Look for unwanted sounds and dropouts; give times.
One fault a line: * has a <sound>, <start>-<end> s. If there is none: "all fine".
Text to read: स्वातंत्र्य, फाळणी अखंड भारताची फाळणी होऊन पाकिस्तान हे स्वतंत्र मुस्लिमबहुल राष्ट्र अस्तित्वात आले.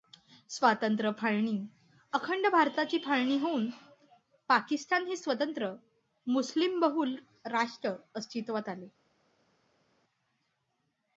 all fine